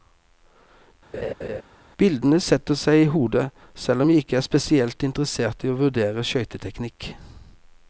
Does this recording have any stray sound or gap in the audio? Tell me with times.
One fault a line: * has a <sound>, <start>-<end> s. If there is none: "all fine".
* has a laugh, 1.1-1.6 s